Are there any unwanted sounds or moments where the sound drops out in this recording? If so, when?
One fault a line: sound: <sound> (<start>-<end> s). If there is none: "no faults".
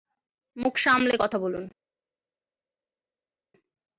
no faults